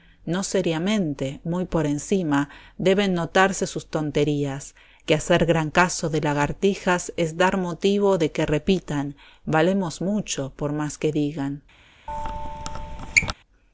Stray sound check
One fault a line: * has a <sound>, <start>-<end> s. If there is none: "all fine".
* has a squeak, 12.1-13.3 s